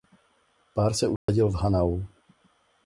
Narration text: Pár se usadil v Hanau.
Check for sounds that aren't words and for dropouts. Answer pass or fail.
fail